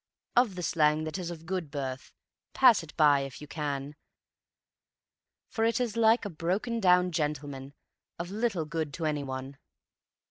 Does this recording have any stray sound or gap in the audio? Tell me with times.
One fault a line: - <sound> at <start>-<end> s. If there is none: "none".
none